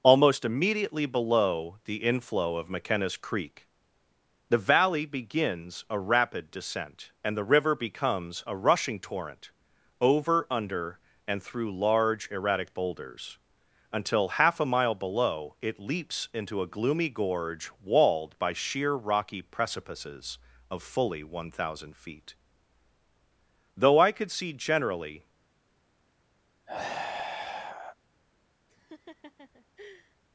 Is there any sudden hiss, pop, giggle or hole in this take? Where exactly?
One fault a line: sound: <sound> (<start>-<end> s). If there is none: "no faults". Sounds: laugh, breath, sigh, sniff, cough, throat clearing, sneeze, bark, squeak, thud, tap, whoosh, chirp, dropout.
sound: sigh (26.7-28.0 s)
sound: laugh (28.7-30.2 s)